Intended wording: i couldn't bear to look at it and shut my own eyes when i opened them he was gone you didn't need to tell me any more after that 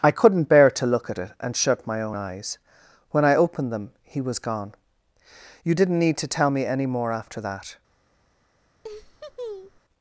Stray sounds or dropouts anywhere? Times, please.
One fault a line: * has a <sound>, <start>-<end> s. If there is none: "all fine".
* has a laugh, 8.8-9.8 s